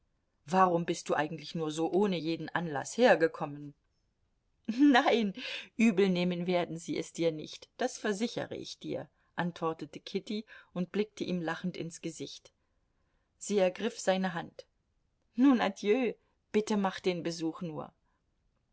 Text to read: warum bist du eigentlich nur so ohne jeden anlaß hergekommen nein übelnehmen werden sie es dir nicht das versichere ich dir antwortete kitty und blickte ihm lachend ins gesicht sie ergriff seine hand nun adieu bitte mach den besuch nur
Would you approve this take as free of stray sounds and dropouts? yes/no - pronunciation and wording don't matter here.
yes